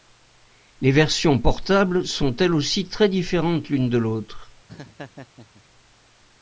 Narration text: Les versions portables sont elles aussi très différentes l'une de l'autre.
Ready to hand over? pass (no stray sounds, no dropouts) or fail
fail